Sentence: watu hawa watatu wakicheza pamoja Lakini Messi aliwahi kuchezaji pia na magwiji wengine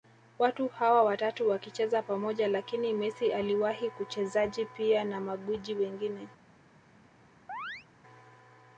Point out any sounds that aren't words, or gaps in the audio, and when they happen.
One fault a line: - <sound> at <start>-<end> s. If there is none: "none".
- chirp at 7.5-7.9 s